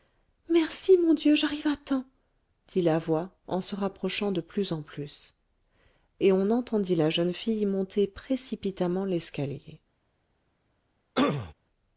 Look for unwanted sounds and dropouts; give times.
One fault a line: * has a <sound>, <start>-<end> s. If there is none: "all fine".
* has a throat clearing, 11.1-11.5 s